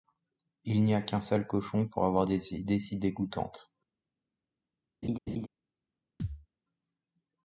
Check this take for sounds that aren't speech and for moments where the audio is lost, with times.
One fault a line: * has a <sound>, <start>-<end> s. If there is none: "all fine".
* has a laugh, 5.0-5.5 s
* has a thud, 6.2-6.5 s